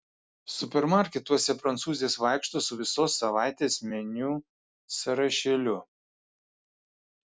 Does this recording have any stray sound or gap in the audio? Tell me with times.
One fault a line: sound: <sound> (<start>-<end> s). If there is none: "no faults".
no faults